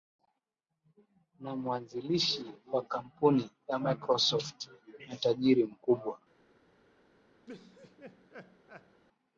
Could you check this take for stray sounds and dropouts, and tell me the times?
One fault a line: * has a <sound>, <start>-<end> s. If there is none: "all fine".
* has a laugh, 7.5-9.0 s